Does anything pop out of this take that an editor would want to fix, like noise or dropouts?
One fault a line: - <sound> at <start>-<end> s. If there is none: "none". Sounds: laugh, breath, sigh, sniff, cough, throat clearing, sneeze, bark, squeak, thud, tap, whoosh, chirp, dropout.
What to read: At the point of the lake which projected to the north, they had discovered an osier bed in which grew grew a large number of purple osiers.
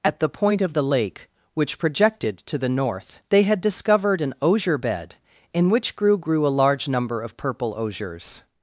none